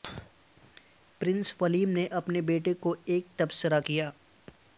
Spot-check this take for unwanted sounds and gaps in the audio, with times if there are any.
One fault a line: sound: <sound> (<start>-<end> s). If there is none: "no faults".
no faults